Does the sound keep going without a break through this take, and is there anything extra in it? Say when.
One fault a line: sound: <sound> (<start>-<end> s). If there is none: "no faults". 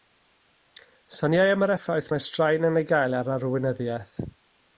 no faults